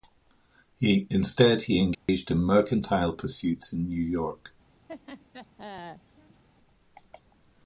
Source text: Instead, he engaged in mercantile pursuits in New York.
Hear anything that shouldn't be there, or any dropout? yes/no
yes